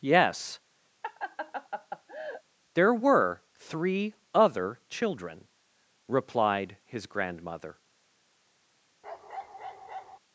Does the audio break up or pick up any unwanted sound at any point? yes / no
yes